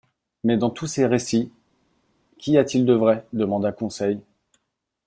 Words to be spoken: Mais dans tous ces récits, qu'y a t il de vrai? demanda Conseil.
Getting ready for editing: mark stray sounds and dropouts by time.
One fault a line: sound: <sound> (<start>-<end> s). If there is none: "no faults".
no faults